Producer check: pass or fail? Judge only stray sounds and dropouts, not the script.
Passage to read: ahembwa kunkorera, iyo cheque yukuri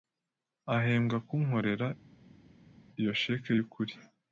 pass